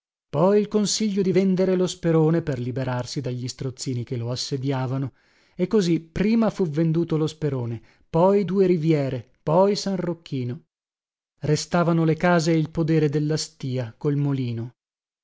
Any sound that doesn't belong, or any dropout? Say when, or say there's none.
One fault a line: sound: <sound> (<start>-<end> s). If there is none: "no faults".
no faults